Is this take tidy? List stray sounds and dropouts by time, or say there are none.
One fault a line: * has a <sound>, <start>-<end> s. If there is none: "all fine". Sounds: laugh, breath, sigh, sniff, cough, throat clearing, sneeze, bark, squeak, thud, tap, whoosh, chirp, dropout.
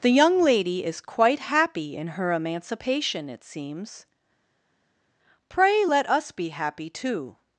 all fine